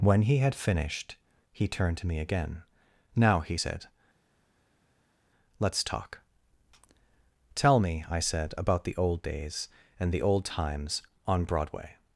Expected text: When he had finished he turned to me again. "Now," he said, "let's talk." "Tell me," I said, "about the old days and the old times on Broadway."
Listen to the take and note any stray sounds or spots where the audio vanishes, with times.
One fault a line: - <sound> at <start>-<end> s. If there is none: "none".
none